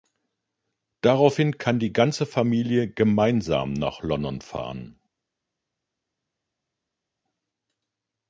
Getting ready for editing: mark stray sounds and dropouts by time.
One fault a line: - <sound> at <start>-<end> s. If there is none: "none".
none